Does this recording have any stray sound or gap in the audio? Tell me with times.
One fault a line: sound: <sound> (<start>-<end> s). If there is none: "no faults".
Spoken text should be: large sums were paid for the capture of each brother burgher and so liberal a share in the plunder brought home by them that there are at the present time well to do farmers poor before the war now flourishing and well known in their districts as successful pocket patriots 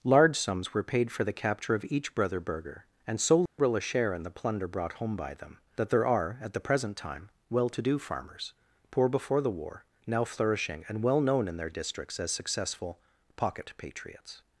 sound: dropout (3.5-3.6 s)